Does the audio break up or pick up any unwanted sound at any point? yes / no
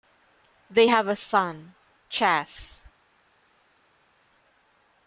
no